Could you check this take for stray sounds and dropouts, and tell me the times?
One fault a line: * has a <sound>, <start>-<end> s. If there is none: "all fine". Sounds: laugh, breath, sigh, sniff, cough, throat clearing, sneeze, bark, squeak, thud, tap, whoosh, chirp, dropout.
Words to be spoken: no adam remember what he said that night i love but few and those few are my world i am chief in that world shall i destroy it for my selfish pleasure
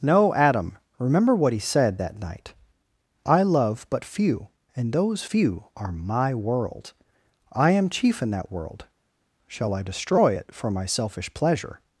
all fine